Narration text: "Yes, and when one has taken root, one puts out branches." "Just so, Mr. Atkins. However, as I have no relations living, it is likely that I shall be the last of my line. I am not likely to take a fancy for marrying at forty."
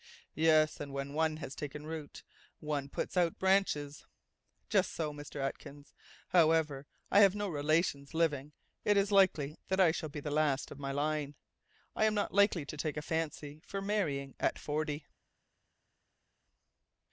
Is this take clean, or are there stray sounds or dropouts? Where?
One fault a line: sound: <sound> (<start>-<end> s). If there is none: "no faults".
no faults